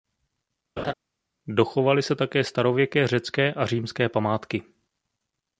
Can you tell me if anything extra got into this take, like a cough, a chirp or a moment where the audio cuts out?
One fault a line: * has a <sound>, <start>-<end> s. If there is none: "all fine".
* has a laugh, 0.8-0.9 s